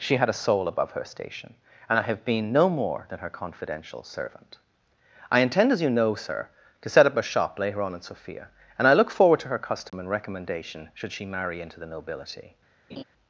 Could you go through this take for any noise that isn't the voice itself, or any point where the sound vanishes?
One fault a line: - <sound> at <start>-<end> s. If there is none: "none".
- dropout at 9.9-9.9 s
- laugh at 12.9-13.0 s